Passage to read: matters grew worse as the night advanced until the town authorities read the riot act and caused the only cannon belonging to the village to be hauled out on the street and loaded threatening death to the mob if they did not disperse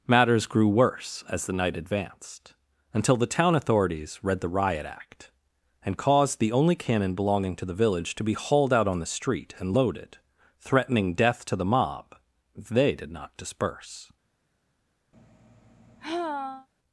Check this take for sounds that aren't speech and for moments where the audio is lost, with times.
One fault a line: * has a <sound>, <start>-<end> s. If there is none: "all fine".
* has a sigh, 15.1-16.7 s